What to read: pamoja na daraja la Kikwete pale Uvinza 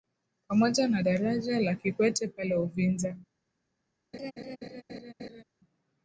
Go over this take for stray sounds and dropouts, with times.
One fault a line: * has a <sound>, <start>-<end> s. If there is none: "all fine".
* has a laugh, 4.1-5.4 s